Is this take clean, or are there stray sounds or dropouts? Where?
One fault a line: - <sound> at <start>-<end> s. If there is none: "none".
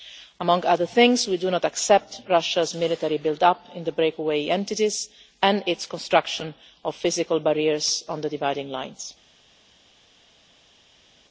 none